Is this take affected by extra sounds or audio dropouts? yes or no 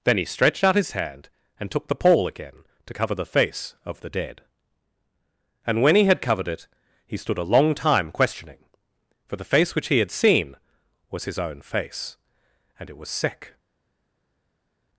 no